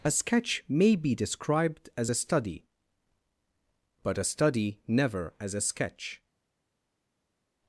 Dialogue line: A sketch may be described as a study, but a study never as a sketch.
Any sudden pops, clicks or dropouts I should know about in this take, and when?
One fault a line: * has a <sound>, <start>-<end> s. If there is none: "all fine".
all fine